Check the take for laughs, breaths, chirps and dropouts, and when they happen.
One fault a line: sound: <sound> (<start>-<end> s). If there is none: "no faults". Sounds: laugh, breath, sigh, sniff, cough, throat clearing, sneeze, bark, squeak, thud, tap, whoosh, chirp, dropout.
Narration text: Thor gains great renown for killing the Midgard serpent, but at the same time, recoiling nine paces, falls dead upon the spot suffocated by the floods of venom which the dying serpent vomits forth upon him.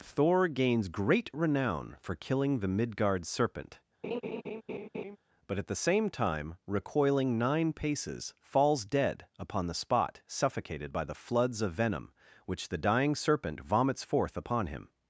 sound: laugh (4.0-5.2 s)